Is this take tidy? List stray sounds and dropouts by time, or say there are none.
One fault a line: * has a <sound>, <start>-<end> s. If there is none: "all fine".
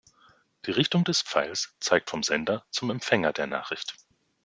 all fine